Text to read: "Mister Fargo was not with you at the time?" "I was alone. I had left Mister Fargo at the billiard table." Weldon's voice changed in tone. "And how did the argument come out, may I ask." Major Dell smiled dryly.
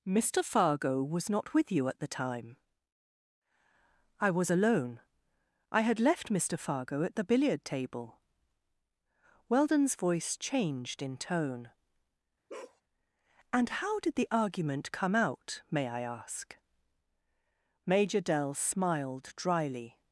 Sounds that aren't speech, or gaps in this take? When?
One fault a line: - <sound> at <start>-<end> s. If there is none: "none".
- bark at 12.5-12.8 s